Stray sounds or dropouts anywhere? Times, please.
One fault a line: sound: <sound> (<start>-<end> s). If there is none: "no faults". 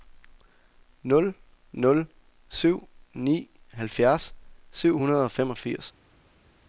no faults